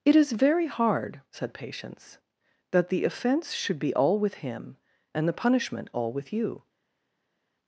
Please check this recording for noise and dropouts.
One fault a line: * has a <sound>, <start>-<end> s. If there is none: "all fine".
all fine